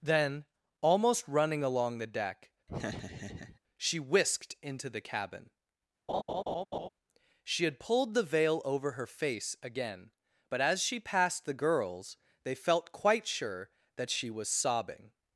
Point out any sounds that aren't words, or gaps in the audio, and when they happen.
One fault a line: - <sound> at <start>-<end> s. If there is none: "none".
- laugh at 2.7-3.6 s
- laugh at 6.1-6.9 s